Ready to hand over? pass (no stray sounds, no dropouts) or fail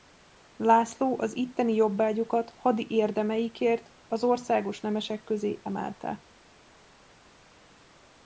pass